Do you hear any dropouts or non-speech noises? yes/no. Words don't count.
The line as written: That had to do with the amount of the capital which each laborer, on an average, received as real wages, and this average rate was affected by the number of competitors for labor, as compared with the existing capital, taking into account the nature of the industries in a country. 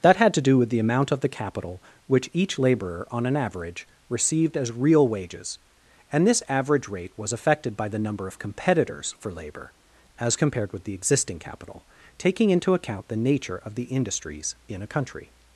no